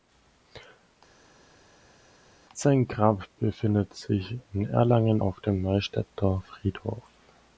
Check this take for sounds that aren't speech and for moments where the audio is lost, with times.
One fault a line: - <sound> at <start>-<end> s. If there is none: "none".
none